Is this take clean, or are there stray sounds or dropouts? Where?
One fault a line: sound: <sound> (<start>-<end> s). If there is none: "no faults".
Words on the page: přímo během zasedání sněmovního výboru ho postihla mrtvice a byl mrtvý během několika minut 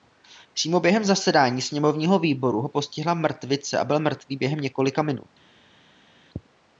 no faults